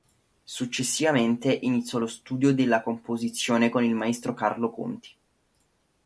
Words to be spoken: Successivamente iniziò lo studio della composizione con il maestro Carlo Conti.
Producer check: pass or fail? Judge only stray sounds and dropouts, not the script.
pass